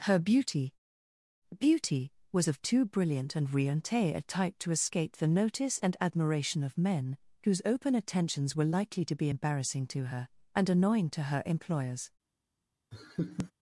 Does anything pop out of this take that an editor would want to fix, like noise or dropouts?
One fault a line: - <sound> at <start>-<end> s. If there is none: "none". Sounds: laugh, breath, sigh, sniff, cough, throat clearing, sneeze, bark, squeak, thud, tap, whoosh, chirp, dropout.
- laugh at 12.9-13.5 s